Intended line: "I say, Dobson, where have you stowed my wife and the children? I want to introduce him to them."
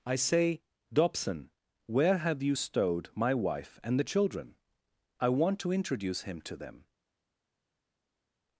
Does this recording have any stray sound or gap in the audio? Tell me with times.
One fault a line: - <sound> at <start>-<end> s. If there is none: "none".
none